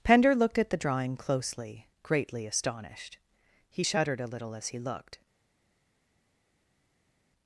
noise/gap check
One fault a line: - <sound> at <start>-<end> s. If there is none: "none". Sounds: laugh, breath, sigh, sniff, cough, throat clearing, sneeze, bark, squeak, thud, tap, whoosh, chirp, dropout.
none